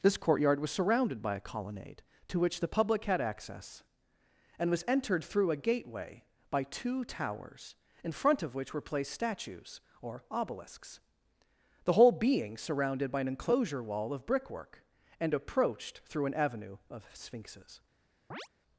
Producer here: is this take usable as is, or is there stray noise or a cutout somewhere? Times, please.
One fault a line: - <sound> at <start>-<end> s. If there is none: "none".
- chirp at 18.3-18.5 s